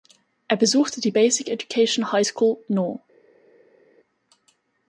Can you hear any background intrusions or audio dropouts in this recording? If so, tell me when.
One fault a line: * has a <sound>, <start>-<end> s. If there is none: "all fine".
all fine